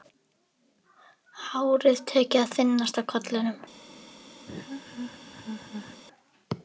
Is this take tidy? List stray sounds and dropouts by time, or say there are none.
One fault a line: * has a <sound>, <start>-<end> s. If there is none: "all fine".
* has a laugh, 4.5-6.0 s